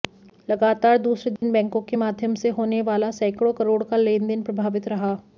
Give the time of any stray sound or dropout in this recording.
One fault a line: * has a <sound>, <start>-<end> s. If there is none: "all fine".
* has a dropout, 1.4-1.4 s